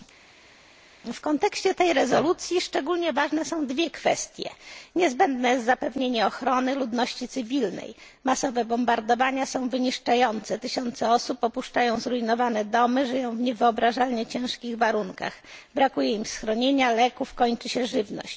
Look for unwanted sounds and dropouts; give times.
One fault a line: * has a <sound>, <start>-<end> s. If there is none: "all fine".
all fine